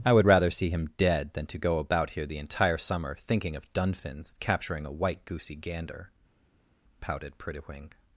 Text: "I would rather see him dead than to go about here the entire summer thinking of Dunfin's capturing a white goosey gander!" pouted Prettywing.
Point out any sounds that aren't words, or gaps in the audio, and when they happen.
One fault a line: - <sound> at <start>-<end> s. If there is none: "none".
none